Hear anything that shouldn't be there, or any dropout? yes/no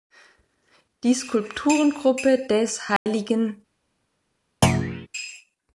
yes